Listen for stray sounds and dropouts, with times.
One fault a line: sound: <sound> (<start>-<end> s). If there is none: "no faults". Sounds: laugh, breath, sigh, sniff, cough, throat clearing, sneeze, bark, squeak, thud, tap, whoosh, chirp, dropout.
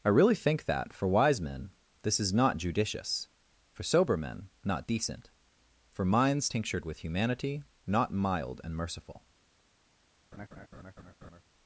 sound: laugh (10.3-11.4 s)